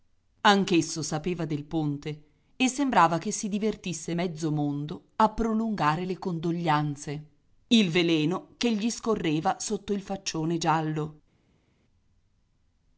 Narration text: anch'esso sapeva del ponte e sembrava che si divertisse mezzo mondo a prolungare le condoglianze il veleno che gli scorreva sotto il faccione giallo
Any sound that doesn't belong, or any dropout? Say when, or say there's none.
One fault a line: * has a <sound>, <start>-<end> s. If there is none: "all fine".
all fine